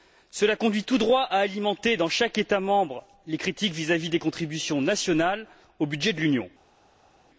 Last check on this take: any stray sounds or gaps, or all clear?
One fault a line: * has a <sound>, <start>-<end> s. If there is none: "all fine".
all fine